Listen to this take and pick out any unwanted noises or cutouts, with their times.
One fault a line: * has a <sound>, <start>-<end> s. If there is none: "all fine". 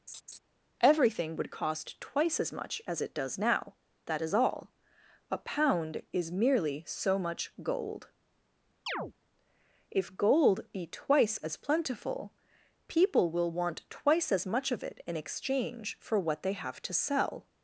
* has a laugh, 0.1-0.4 s
* has a chirp, 8.9-9.1 s